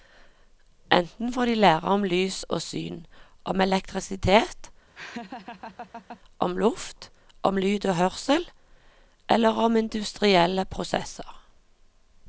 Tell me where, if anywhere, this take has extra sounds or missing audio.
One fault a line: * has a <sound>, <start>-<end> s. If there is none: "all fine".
* has a laugh, 4.9-6.2 s